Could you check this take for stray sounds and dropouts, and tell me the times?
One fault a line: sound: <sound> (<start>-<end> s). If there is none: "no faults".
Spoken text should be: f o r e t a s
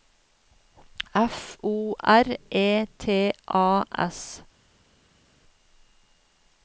no faults